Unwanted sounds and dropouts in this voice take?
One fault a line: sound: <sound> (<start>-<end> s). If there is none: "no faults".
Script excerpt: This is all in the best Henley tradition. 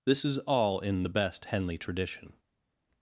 no faults